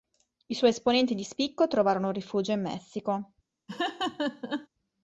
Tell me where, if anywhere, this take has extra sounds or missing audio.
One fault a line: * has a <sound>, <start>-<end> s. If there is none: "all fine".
* has a laugh, 3.7-4.7 s